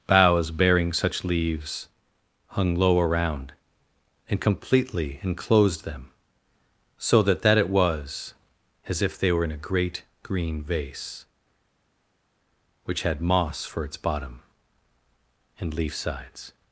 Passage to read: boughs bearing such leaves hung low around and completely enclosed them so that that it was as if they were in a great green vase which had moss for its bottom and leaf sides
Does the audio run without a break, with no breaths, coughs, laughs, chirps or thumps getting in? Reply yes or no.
yes